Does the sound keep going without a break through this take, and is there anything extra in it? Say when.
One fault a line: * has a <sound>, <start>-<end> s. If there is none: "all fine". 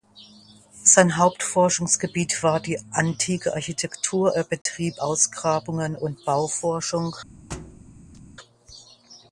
* has a dropout, 4.6-4.7 s
* has a thud, 7.5-8.2 s